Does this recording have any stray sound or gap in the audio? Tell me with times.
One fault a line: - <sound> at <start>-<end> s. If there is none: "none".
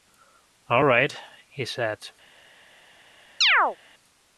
- chirp at 3.4-3.8 s